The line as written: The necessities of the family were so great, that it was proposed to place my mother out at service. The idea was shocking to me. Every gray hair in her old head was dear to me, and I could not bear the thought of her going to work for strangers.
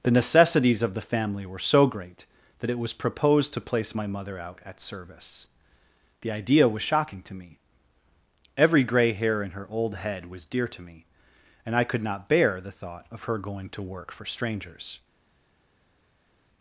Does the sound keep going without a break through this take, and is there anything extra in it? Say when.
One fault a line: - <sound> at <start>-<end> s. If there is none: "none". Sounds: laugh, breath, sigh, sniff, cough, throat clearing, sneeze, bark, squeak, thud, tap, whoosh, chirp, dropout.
none